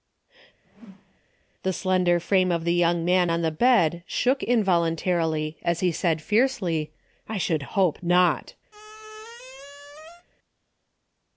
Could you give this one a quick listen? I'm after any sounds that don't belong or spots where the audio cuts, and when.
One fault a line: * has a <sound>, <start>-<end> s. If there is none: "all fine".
* has a whoosh, 0.6-1.2 s
* has a squeak, 8.7-10.3 s